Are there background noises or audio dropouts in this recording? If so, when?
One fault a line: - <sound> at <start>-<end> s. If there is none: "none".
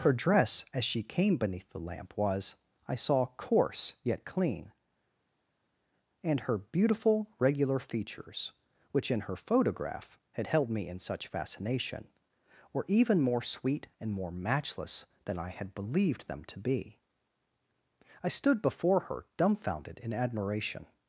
none